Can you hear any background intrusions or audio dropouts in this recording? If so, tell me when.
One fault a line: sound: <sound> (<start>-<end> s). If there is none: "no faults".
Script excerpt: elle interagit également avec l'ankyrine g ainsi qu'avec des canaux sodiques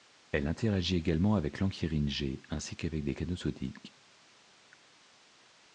no faults